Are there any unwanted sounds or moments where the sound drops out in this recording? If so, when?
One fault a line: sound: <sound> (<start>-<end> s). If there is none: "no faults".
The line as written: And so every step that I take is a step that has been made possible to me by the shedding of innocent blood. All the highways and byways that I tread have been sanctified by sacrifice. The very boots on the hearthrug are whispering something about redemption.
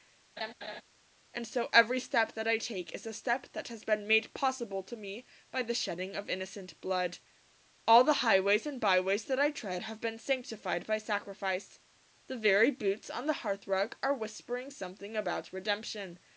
sound: laugh (0.4-0.8 s)